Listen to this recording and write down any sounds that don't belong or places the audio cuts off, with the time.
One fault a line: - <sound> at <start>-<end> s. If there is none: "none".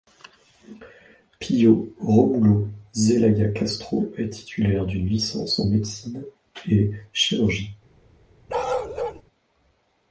- bark at 8.5-9.2 s